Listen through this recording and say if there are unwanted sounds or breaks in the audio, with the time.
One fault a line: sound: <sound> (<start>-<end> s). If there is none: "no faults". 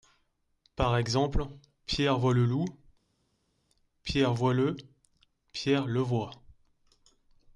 no faults